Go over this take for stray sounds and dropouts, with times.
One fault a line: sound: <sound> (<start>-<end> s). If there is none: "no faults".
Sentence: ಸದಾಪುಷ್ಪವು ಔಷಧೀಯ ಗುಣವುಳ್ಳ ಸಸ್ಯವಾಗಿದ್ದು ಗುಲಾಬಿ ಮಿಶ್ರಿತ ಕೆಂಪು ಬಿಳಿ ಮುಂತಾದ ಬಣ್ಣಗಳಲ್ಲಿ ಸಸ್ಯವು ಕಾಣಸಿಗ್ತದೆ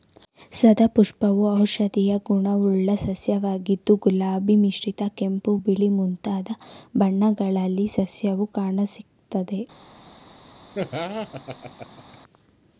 sound: laugh (10.7-12.2 s)